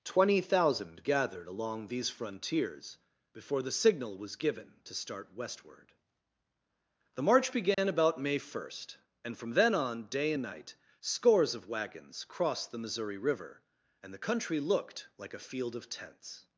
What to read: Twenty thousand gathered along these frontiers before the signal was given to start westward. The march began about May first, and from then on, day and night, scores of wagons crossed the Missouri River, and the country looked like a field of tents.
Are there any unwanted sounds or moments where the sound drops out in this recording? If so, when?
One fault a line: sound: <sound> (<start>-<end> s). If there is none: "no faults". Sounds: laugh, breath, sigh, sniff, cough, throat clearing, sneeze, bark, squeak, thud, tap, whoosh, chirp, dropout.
sound: dropout (7.7-7.8 s)